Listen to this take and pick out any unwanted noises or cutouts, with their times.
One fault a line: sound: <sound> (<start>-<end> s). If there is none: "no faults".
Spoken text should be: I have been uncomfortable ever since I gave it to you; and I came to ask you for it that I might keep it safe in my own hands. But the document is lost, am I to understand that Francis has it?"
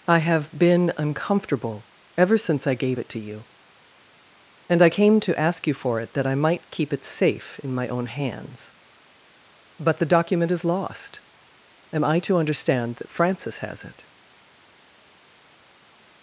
no faults